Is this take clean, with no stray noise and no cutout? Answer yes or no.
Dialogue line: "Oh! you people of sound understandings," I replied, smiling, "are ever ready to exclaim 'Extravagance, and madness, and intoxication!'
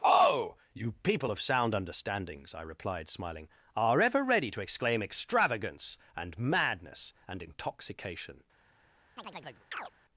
no